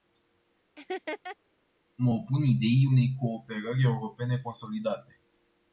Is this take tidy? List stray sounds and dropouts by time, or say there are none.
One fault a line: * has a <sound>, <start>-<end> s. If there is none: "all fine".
* has a laugh, 0.8-1.4 s